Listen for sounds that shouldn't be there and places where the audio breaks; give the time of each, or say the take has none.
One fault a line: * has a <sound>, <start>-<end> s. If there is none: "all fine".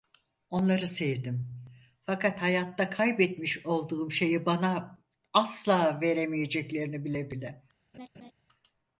* has a laugh, 7.9-8.3 s